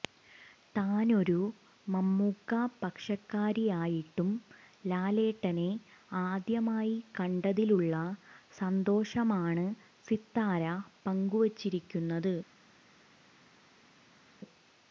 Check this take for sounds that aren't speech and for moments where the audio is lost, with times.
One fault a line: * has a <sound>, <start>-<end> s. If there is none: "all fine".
all fine